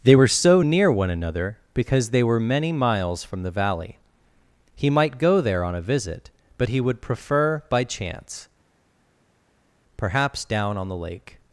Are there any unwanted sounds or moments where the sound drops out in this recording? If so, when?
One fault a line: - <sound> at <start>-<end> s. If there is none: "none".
none